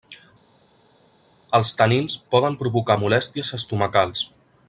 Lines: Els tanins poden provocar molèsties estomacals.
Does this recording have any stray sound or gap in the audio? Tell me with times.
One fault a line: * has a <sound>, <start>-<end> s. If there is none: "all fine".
all fine